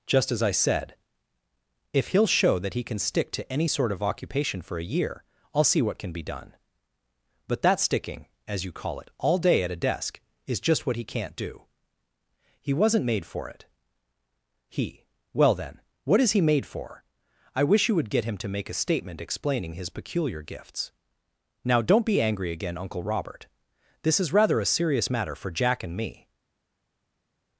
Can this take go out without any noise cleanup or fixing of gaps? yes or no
yes